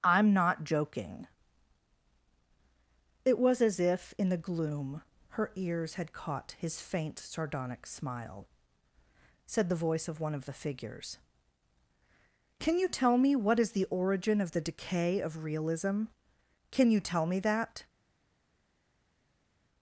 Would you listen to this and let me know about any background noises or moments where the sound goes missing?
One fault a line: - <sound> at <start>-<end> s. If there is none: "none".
none